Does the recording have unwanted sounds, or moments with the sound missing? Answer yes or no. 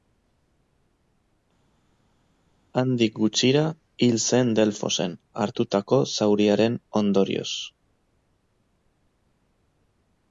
no